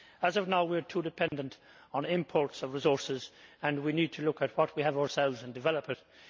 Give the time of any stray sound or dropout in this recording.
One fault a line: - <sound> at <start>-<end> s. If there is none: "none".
- dropout at 1.3-1.3 s